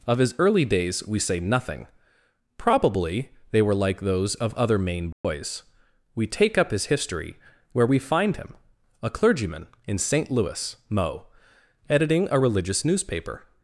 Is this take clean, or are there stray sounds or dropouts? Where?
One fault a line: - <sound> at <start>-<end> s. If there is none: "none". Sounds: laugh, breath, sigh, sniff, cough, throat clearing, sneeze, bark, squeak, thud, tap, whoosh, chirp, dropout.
- dropout at 5.1-5.2 s